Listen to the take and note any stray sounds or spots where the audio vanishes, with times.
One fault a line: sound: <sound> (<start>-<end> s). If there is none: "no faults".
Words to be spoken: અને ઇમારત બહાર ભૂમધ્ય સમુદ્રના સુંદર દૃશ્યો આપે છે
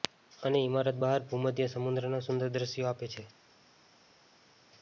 no faults